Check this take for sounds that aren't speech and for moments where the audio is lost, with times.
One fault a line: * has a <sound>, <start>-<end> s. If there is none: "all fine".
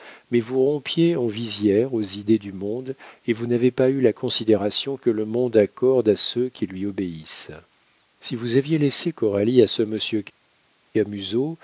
all fine